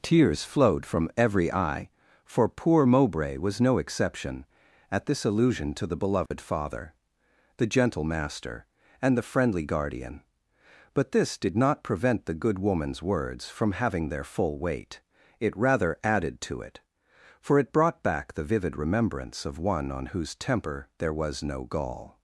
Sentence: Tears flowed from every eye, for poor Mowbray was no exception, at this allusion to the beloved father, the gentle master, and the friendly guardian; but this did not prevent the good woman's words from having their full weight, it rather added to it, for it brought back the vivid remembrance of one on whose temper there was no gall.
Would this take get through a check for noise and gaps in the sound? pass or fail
fail